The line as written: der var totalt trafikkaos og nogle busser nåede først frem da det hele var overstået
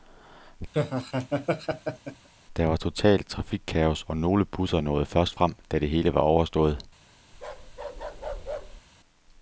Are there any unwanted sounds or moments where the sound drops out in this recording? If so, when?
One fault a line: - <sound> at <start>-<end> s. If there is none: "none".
- laugh at 0.7-2.3 s
- bark at 7.3-8.8 s